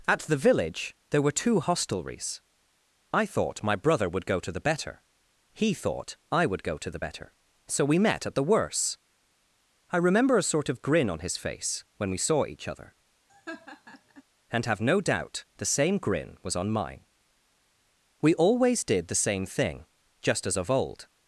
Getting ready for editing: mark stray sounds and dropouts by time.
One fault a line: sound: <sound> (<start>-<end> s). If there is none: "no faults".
sound: laugh (13.3-14.2 s)